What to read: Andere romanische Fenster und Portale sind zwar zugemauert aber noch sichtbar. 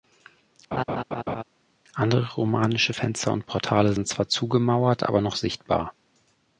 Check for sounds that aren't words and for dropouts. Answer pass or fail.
fail